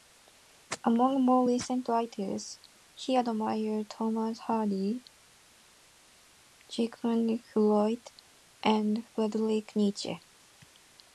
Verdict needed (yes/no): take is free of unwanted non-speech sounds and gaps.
yes